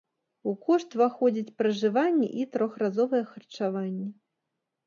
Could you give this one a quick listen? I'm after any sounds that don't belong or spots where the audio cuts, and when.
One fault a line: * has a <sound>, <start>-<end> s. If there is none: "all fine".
all fine